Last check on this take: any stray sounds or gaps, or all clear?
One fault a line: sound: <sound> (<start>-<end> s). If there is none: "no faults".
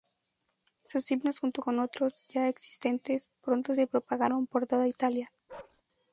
sound: bark (5.5-5.8 s)